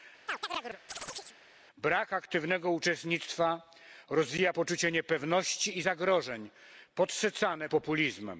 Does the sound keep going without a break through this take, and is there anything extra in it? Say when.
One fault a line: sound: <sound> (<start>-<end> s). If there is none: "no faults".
sound: chirp (0.3-1.4 s)